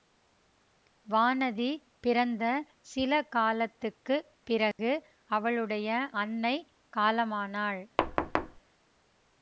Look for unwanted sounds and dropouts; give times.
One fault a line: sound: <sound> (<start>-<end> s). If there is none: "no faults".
sound: dropout (4.7-4.8 s)
sound: thud (8.0-8.6 s)